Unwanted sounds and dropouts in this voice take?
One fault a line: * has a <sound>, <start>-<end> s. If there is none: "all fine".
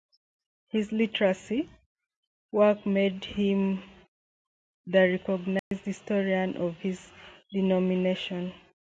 * has a dropout, 5.6-5.7 s